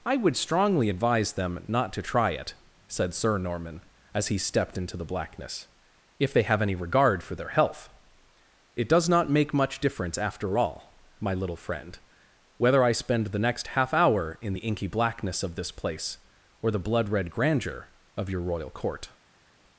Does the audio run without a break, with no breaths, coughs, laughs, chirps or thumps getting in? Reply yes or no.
yes